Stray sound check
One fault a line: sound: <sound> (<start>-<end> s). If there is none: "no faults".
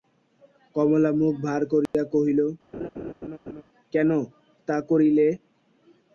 sound: dropout (1.9-1.9 s)
sound: laugh (2.7-3.6 s)